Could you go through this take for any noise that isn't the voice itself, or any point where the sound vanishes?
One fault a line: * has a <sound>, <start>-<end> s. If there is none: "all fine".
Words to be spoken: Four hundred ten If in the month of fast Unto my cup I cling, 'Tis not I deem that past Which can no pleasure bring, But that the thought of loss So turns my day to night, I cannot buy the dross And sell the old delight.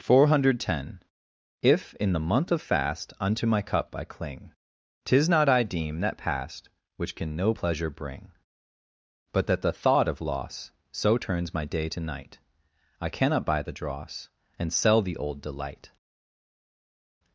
all fine